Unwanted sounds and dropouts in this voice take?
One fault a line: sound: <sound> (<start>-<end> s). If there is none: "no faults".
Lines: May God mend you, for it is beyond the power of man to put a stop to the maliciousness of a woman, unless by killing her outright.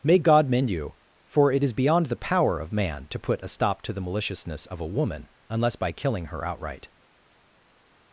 no faults